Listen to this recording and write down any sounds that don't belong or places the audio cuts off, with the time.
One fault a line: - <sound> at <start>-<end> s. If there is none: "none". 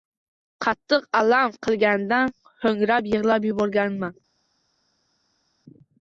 none